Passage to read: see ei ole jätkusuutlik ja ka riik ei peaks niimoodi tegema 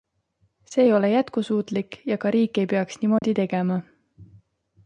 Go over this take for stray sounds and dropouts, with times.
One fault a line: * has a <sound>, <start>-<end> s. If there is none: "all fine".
* has a dropout, 3.2-3.2 s